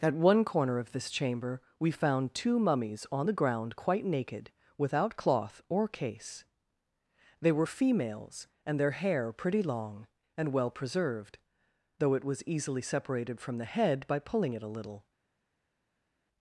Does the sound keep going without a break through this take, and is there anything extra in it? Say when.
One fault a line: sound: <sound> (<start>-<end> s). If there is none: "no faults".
no faults